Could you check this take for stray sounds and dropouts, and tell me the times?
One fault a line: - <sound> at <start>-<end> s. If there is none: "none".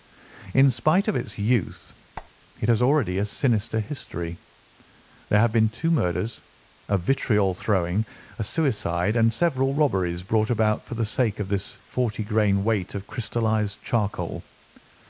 - squeak at 2.2-2.3 s